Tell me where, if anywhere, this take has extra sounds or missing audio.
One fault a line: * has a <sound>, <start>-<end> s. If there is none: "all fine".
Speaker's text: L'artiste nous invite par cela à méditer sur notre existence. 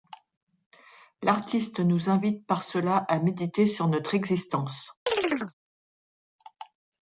* has a chirp, 5.1-5.5 s